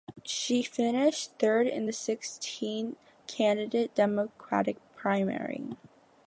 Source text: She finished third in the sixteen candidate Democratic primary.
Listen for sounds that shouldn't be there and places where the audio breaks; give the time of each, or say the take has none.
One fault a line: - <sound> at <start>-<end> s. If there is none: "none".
none